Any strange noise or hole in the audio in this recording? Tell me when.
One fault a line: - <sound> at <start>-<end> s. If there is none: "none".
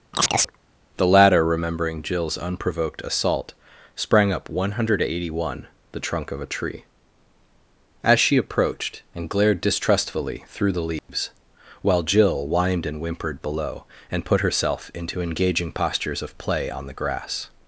- chirp at 0.1-0.6 s
- dropout at 11.0-11.1 s